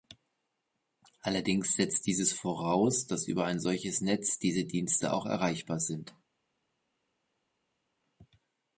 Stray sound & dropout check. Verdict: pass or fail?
pass